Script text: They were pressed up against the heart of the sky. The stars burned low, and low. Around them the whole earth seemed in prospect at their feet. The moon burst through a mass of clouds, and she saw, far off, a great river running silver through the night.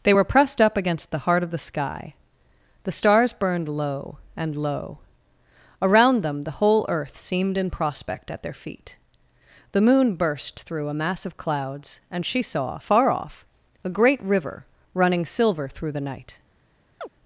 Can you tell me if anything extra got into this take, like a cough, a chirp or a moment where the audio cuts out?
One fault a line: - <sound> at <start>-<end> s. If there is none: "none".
- chirp at 17.0-17.1 s